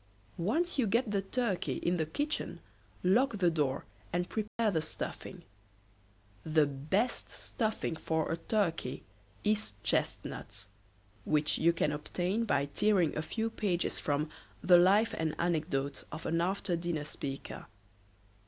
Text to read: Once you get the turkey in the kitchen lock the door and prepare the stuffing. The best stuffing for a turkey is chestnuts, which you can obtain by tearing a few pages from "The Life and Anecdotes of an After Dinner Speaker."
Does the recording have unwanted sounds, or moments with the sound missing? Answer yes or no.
yes